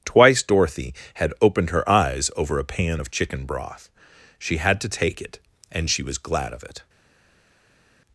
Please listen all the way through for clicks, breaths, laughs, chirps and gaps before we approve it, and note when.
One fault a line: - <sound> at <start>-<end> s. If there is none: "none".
none